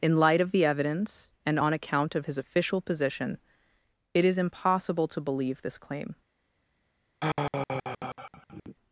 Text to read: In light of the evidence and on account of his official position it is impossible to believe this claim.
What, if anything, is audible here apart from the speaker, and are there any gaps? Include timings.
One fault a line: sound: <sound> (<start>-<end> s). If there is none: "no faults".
sound: sigh (7.2-8.8 s)